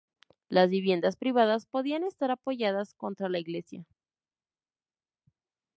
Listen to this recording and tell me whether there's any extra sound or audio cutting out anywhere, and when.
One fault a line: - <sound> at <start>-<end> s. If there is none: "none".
none